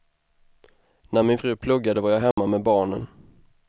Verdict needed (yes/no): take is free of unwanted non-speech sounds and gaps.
no